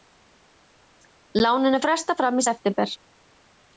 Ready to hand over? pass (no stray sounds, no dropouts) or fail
pass